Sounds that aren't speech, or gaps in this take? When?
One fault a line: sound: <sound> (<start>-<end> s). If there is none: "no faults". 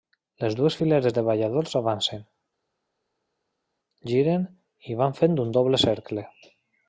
no faults